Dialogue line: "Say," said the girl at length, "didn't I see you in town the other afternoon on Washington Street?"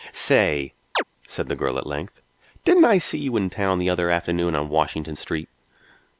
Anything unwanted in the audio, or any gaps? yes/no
yes